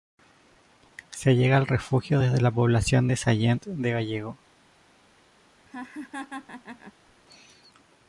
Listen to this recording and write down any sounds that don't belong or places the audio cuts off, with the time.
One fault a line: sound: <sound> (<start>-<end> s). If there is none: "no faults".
sound: laugh (5.7-6.9 s)